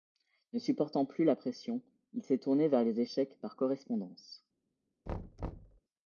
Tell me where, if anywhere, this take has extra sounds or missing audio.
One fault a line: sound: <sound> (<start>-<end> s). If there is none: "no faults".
sound: thud (5.1-5.8 s)